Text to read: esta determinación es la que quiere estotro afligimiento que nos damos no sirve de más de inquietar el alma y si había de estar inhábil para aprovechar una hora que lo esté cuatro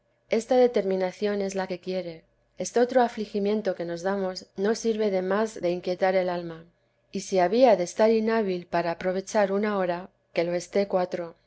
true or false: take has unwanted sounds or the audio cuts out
false